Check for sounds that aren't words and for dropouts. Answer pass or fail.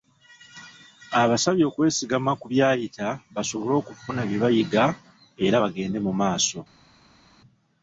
pass